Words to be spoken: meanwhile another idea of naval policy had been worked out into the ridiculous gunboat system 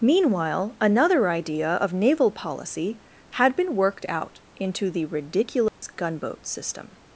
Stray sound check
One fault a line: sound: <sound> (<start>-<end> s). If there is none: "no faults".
sound: dropout (5.7-5.8 s)